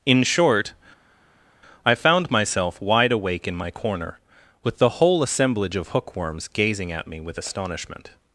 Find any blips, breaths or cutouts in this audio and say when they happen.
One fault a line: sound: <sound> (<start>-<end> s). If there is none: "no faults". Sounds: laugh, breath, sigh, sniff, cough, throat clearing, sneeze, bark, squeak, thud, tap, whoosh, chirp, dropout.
no faults